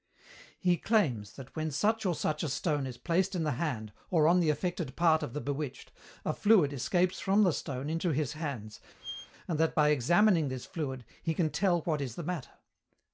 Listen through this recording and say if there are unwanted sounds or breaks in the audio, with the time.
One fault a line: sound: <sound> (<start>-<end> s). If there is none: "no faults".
sound: squeak (9.0-9.3 s)